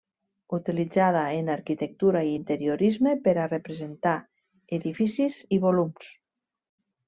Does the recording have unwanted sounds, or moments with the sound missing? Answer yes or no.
no